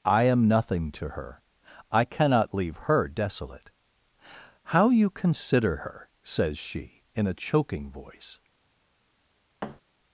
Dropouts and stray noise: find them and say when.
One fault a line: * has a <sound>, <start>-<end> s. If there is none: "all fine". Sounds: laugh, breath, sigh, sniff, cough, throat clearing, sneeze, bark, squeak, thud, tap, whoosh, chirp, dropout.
* has a thud, 9.6-9.8 s